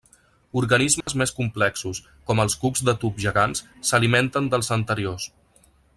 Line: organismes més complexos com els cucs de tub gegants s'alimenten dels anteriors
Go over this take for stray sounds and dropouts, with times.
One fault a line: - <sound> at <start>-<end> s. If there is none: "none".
- dropout at 1.0-1.1 s